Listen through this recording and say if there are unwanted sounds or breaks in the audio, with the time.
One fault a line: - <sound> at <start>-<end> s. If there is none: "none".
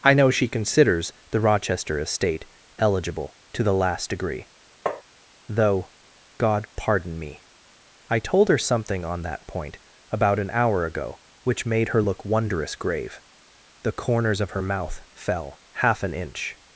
- tap at 4.9-5.0 s